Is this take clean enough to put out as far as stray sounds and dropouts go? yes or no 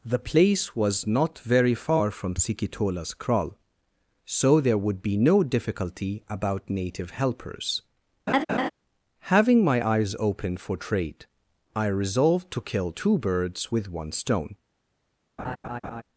no